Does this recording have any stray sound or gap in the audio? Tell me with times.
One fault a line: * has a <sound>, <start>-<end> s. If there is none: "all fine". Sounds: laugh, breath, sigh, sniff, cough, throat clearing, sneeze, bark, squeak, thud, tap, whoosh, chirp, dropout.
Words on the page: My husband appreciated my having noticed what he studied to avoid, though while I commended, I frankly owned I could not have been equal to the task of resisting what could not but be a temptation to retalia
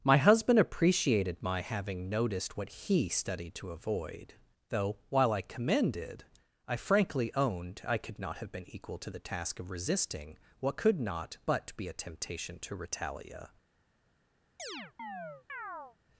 * has a chirp, 14.6-16.0 s